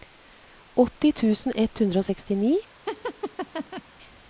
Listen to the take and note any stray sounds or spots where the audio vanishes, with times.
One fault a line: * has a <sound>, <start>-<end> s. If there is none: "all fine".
* has a laugh, 2.9-3.8 s